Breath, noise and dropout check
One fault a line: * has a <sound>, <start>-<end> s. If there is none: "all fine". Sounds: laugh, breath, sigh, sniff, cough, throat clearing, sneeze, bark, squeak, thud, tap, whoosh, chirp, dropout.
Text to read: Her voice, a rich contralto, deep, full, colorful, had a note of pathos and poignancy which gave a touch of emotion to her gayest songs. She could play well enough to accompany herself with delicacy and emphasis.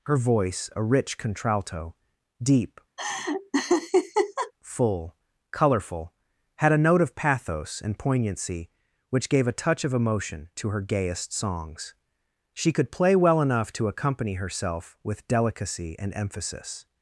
* has a laugh, 3.0-4.5 s